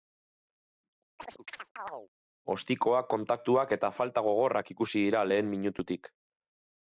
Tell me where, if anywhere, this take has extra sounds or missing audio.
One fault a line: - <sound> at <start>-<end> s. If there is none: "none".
- chirp at 1.2-2.1 s